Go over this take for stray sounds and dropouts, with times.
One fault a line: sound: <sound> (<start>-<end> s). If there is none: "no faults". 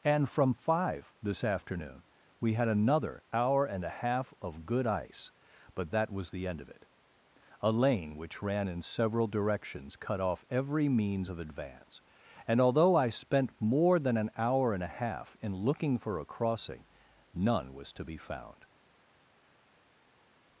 no faults